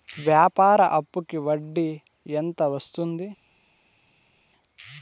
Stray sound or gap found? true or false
false